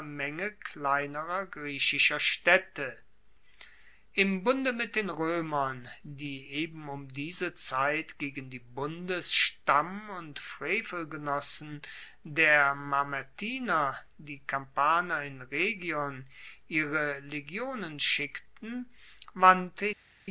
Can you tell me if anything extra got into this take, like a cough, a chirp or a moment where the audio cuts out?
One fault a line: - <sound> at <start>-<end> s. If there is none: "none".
none